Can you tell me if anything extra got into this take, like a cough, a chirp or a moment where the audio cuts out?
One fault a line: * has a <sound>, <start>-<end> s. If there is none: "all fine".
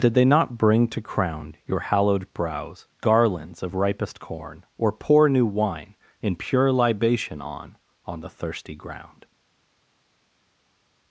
all fine